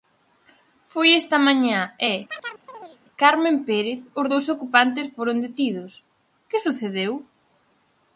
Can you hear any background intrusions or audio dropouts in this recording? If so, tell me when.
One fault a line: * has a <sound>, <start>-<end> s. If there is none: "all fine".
* has a chirp, 2.3-3.0 s